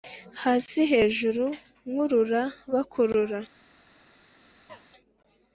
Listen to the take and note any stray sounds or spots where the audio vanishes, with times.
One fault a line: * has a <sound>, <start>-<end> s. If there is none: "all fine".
* has a cough, 4.7-4.9 s